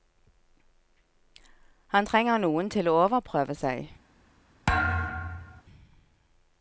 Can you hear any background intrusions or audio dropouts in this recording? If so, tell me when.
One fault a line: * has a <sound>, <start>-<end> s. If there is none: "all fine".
* has a thud, 4.7-5.6 s